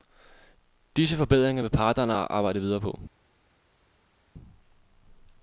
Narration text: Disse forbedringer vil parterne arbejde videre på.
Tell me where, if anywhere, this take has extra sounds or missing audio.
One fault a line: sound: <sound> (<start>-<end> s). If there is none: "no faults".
no faults